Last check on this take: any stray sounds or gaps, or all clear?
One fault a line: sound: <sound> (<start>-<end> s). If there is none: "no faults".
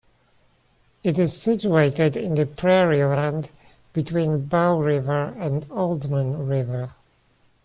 no faults